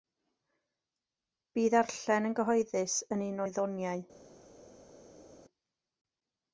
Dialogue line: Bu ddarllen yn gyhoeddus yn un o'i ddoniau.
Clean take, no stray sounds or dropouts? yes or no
yes